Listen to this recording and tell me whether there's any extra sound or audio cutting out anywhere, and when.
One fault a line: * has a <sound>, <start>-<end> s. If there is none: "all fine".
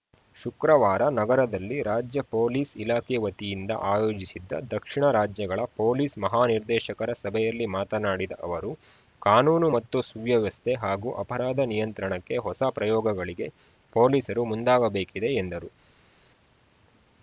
all fine